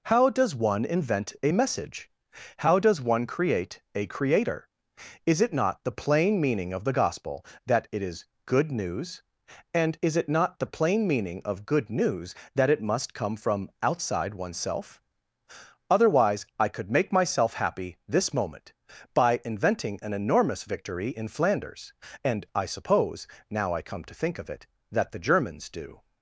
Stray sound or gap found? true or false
false